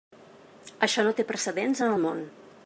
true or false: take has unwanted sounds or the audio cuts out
false